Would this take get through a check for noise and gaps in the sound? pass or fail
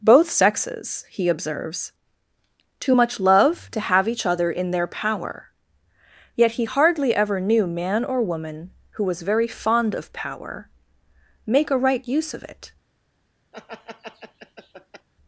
fail